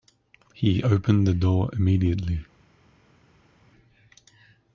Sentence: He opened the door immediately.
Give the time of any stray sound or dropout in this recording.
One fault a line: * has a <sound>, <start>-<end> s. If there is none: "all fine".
all fine